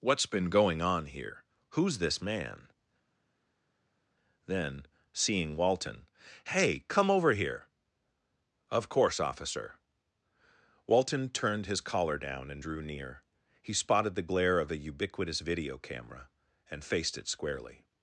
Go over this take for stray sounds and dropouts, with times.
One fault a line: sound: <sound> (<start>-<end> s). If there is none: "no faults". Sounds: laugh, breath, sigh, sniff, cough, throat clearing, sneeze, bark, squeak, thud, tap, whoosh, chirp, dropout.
no faults